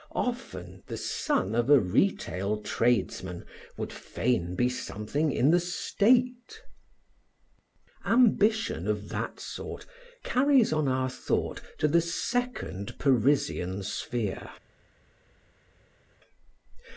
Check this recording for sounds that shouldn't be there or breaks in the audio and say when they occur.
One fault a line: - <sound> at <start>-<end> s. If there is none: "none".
none